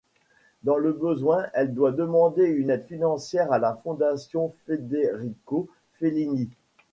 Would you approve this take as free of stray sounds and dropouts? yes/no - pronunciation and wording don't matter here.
yes